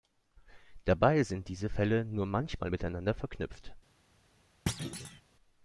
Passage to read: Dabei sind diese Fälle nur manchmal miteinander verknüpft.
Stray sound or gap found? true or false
true